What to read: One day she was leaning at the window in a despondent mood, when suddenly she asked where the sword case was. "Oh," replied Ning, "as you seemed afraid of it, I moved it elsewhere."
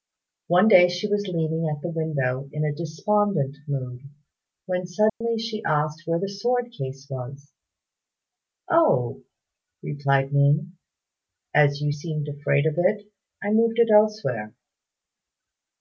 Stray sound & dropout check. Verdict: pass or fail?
fail